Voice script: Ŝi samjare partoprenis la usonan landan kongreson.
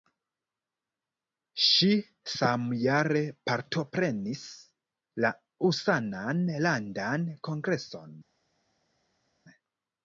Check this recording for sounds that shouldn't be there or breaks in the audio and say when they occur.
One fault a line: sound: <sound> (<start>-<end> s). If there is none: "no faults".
no faults